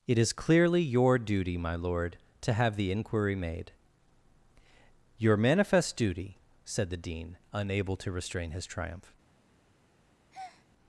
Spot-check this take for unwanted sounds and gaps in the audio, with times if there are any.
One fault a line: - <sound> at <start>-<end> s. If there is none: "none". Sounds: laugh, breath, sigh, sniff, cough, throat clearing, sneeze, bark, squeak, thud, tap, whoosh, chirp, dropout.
- breath at 10.3-10.7 s